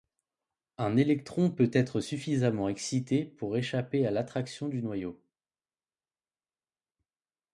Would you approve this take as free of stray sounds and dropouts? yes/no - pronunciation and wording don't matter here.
yes